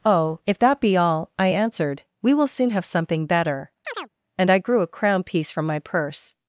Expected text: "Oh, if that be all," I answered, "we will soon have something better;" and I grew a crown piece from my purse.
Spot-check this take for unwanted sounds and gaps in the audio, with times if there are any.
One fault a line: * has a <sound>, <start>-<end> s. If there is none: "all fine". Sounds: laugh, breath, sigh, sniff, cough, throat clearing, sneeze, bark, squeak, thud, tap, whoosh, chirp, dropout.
* has a chirp, 3.8-4.1 s